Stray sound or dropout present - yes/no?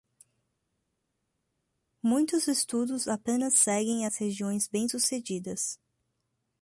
no